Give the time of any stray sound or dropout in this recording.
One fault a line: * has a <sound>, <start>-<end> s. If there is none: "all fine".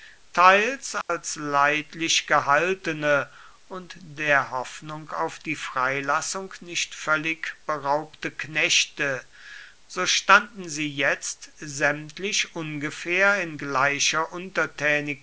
* has a dropout, 1.0-1.1 s